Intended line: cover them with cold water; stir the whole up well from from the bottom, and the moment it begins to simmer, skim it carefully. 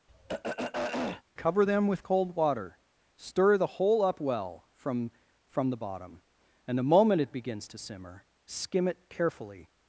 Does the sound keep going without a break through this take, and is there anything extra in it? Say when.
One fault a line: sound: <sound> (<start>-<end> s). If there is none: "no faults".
sound: throat clearing (0.1-1.2 s)